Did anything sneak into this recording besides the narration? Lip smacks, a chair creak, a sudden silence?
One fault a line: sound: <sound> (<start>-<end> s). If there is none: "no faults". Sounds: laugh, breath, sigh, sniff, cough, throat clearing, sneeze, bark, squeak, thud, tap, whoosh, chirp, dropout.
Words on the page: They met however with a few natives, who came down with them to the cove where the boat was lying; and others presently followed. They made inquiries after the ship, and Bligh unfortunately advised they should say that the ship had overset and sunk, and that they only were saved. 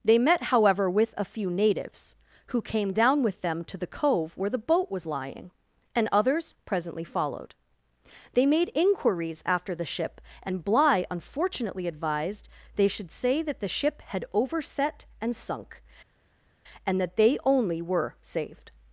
no faults